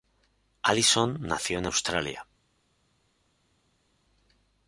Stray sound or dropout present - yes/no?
no